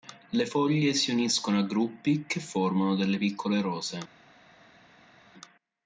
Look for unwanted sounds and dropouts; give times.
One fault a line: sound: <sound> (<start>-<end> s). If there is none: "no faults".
no faults